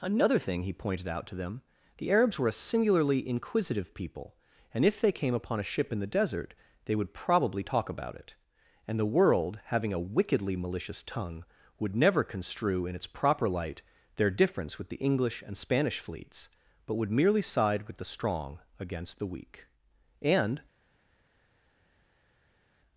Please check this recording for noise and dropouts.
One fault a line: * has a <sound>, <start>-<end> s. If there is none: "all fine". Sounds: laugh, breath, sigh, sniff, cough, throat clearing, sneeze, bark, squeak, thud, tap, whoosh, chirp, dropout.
all fine